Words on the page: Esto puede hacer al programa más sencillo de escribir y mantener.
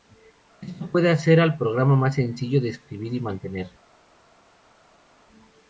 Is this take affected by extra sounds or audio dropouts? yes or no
no